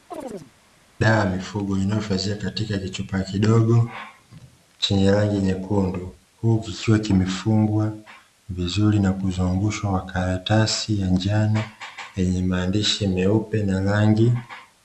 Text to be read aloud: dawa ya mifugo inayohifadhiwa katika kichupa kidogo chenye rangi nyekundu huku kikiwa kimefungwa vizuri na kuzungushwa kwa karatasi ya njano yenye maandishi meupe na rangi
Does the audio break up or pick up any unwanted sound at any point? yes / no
yes